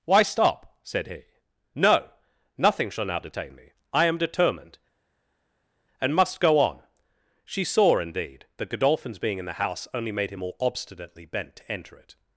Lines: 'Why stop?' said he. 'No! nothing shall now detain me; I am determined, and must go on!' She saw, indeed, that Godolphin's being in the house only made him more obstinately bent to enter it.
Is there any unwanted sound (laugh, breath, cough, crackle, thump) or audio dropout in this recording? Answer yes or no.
no